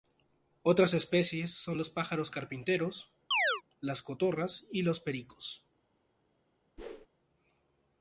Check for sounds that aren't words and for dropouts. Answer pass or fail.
fail